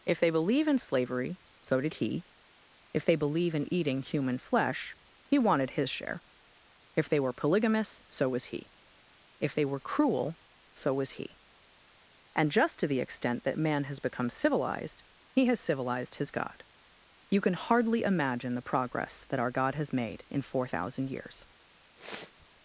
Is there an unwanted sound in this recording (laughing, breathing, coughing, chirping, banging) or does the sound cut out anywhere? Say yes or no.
yes